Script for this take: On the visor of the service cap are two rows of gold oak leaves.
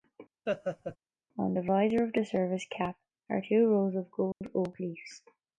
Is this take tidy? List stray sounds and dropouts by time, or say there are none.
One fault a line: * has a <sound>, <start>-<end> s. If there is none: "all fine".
* has a laugh, 0.5-1.0 s
* has a dropout, 4.3-4.4 s